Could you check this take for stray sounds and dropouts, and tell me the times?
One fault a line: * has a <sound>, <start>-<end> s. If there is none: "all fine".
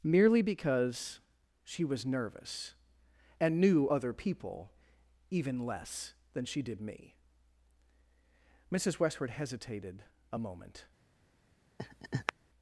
* has a laugh, 11.8-12.3 s